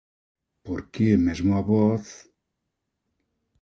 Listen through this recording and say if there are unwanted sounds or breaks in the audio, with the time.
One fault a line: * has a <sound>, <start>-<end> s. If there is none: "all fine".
all fine